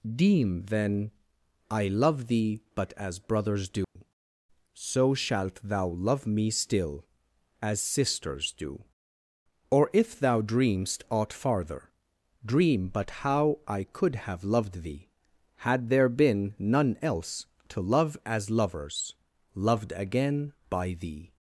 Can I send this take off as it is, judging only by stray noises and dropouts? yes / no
no